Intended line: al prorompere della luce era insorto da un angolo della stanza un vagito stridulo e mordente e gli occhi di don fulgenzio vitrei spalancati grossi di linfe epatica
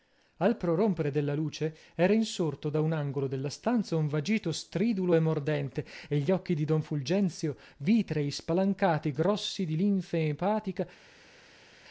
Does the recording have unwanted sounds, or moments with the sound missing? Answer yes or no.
no